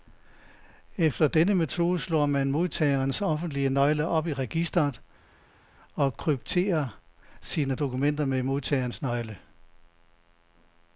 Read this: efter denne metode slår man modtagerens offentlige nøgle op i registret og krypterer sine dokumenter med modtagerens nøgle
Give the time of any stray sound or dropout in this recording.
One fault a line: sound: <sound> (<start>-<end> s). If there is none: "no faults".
no faults